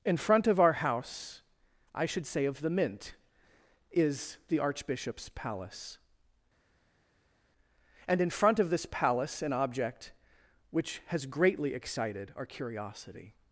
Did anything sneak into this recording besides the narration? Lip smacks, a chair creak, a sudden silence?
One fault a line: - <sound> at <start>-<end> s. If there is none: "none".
none